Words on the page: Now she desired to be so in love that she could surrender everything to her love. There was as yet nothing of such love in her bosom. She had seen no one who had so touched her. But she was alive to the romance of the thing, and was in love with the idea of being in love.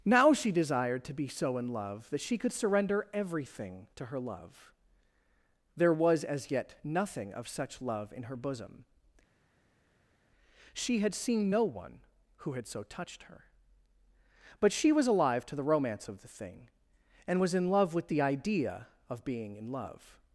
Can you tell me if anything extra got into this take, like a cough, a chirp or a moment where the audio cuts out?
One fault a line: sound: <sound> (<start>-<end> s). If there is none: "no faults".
no faults